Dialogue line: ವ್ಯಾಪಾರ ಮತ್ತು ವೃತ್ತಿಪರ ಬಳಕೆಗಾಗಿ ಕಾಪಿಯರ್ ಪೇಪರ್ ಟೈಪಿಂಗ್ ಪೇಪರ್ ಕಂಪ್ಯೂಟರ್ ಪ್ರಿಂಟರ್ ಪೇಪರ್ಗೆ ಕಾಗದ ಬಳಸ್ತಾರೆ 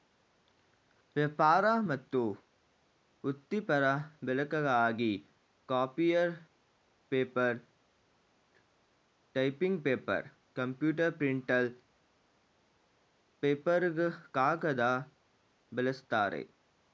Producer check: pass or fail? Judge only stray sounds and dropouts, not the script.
pass